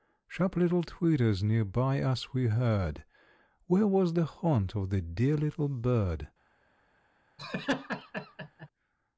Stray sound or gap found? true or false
true